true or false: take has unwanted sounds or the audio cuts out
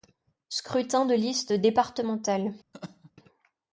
true